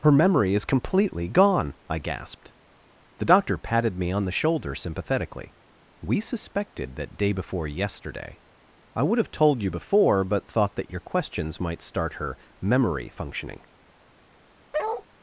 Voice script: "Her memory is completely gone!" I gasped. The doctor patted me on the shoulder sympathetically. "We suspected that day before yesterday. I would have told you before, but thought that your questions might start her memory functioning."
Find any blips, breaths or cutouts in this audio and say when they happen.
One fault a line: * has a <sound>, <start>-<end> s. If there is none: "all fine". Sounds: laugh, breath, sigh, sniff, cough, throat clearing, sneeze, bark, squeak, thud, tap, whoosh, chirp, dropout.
* has a bark, 14.7-15.1 s